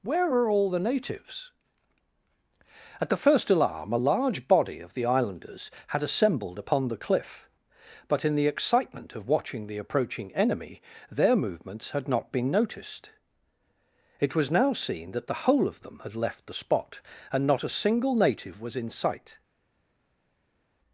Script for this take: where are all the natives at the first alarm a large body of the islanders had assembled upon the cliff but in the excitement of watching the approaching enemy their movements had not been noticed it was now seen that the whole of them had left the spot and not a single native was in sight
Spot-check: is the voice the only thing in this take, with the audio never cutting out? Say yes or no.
yes